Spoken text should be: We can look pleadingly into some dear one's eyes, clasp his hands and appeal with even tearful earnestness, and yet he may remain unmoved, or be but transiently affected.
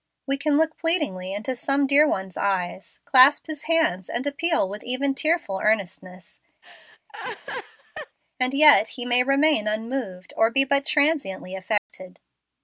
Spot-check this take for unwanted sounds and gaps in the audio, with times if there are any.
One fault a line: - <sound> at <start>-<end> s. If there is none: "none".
- laugh at 6.6-8.2 s
- dropout at 11.8-11.9 s